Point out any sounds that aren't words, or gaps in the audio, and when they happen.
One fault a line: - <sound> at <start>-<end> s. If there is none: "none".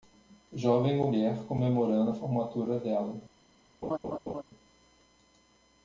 - laugh at 3.8-4.4 s